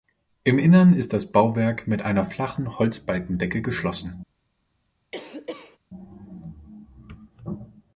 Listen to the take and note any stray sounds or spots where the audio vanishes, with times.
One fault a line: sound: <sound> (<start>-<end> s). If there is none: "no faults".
sound: cough (5.1-5.8 s)